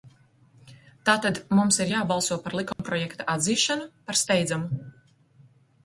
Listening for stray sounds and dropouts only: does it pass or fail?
fail